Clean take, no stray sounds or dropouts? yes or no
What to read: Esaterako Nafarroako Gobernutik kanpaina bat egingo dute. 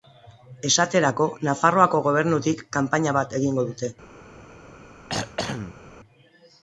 no